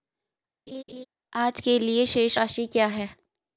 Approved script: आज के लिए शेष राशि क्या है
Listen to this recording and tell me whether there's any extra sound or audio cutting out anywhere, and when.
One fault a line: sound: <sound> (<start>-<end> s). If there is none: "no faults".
sound: laugh (0.7-1.1 s)